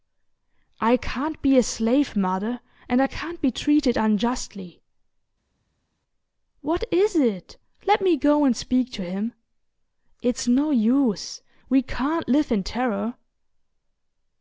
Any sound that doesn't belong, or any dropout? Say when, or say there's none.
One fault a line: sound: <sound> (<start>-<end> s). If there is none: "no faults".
no faults